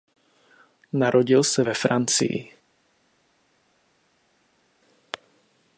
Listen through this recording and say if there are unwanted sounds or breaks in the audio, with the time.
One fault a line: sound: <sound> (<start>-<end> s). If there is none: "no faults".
no faults